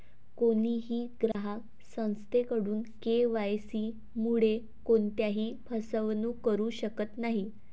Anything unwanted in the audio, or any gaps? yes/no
yes